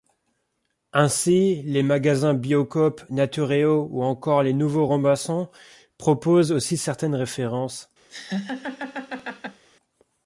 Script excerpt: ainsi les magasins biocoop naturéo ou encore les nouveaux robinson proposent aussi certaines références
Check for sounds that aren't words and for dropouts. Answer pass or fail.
fail